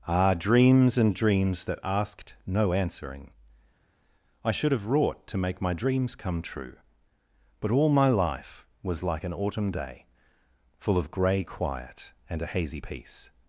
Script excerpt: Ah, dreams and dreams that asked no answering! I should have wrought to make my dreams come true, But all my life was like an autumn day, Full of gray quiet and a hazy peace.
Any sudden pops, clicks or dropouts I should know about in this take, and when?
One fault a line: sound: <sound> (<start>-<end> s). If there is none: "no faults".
no faults